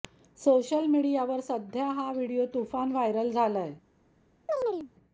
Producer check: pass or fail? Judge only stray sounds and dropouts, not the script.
fail